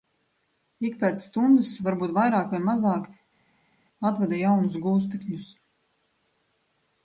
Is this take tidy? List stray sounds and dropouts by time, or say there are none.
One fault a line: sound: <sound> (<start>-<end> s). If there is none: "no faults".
no faults